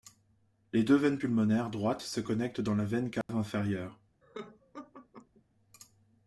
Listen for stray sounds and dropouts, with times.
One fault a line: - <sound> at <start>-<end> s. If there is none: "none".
- dropout at 3.2-3.3 s
- laugh at 4.2-5.4 s